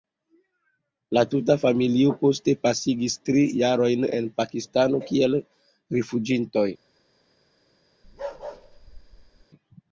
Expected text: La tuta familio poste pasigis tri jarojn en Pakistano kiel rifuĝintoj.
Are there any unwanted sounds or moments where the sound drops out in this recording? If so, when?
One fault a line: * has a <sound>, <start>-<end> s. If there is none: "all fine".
* has a bark, 8.0-9.5 s